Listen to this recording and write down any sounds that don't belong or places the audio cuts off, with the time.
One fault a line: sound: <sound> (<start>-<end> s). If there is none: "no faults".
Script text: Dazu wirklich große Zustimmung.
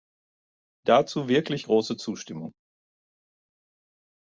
no faults